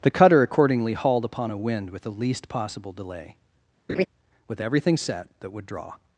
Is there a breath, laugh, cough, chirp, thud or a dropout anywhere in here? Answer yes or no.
yes